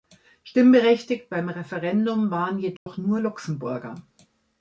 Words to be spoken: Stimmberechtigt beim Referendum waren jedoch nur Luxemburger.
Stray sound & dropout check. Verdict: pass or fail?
fail